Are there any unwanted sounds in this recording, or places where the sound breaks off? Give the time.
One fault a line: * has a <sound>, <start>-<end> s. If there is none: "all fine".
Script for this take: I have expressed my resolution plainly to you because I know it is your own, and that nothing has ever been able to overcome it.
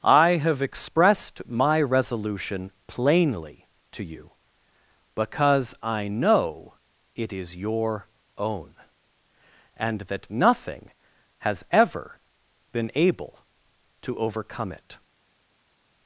all fine